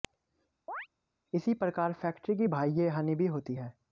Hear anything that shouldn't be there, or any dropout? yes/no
yes